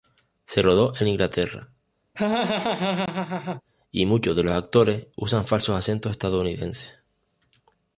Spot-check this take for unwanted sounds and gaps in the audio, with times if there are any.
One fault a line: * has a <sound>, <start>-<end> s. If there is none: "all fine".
* has a laugh, 2.1-3.6 s